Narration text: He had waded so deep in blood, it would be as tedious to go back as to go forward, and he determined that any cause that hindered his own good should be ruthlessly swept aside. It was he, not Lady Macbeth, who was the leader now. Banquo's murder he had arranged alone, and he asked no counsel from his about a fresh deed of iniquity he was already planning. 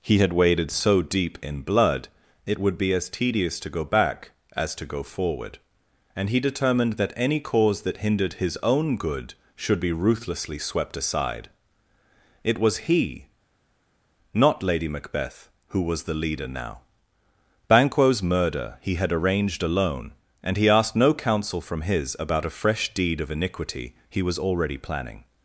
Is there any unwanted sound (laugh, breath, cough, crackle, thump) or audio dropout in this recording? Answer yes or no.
no